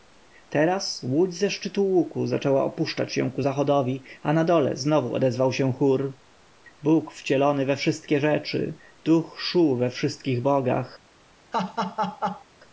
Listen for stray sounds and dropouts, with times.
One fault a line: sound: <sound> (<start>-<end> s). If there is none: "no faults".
sound: laugh (11.5-12.4 s)